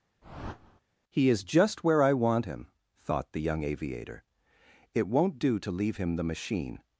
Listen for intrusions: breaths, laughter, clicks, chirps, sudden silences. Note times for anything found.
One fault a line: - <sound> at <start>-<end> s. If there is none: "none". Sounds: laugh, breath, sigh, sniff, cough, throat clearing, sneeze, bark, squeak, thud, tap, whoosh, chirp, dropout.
- whoosh at 0.2-0.8 s